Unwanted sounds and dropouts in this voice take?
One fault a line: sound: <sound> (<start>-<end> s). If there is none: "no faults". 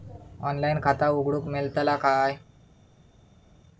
no faults